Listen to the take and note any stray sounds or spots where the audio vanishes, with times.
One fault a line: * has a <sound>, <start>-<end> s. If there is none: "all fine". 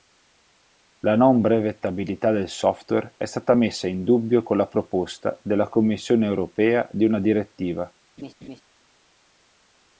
* has a laugh, 8.2-8.6 s